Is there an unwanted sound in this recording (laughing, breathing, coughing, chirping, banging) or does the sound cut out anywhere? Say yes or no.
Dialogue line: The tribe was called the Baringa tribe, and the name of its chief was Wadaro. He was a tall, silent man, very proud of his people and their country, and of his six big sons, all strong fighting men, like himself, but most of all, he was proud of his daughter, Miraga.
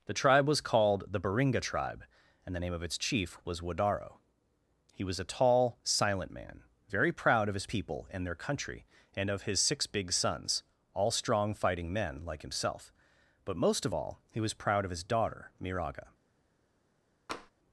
yes